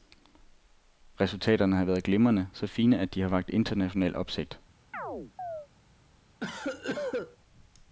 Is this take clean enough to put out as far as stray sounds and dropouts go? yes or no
no